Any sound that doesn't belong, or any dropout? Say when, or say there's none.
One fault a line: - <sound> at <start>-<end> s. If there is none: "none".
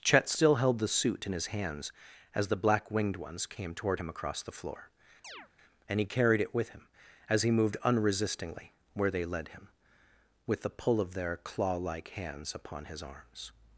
- chirp at 5.2-5.5 s